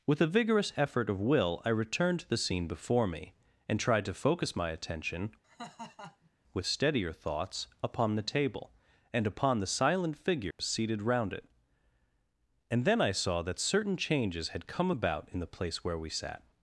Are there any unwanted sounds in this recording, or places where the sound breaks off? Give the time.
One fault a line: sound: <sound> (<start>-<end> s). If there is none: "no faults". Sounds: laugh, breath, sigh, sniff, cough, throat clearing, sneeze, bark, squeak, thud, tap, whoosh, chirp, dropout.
sound: laugh (5.4-6.3 s)
sound: dropout (10.5-10.6 s)